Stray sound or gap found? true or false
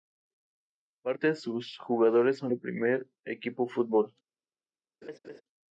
true